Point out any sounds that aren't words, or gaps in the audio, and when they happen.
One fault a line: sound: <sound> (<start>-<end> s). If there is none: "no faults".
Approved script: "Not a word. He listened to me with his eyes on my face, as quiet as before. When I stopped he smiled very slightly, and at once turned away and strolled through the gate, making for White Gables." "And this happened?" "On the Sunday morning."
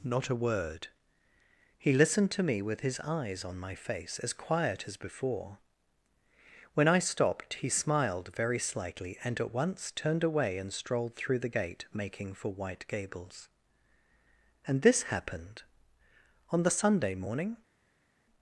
no faults